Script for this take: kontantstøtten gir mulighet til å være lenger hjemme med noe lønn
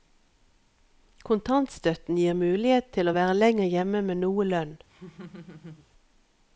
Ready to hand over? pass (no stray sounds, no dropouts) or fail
fail